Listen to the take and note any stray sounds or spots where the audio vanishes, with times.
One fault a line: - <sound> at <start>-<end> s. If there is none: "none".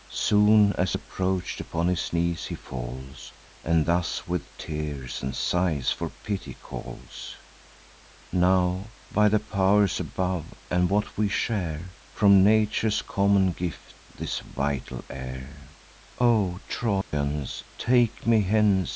- dropout at 17.0-17.1 s